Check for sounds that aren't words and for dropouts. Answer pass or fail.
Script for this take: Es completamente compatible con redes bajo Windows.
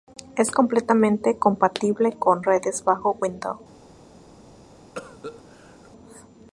fail